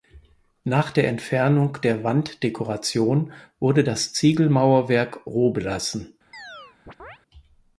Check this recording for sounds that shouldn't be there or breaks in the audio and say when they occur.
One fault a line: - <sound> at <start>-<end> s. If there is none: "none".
- chirp at 6.3-7.2 s